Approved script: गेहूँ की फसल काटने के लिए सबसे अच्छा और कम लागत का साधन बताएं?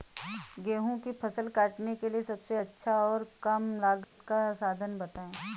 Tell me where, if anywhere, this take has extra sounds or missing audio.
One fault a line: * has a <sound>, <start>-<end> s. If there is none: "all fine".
* has a dropout, 4.0-4.2 s